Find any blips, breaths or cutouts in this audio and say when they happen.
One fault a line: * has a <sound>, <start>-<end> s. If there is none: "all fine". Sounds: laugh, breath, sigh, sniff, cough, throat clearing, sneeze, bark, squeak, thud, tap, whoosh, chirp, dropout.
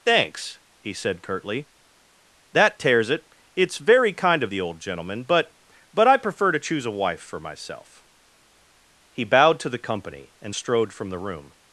all fine